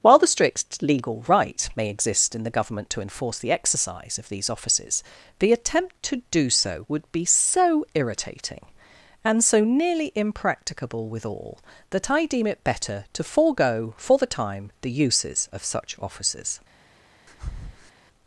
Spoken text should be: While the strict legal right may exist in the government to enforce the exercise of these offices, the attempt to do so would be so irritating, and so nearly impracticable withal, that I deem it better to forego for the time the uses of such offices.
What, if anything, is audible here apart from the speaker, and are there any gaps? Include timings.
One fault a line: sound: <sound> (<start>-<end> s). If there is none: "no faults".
sound: breath (17.3-17.9 s)